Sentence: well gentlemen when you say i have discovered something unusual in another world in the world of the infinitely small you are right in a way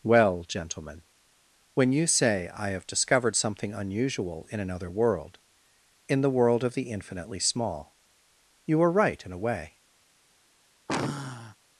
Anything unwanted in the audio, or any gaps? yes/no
yes